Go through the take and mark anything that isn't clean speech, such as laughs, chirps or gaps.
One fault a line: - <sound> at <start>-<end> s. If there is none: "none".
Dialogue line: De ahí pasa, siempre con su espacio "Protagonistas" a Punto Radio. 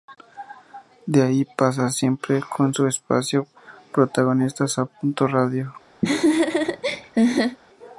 - laugh at 6.0-7.6 s